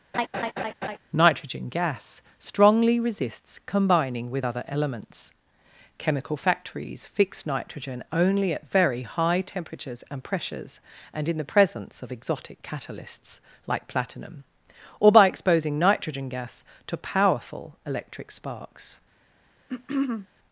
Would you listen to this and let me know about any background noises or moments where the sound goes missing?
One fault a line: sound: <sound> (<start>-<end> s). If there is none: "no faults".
sound: laugh (0.1-1.0 s)
sound: throat clearing (19.7-20.3 s)